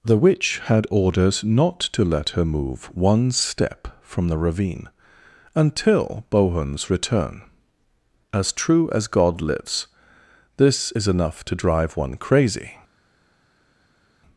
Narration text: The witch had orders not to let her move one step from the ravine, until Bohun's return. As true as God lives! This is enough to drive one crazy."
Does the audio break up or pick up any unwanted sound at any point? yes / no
no